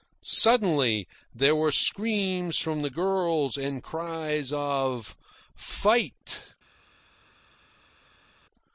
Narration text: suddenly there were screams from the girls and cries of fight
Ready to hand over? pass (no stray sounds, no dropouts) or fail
pass